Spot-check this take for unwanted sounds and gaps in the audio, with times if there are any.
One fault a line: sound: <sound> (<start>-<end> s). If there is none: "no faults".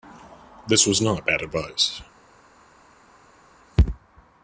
no faults